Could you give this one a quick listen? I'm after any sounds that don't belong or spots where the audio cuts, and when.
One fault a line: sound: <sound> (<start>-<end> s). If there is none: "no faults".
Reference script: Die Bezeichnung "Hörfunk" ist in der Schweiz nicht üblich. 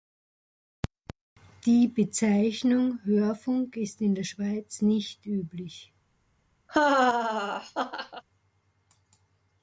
sound: laugh (6.7-8.2 s)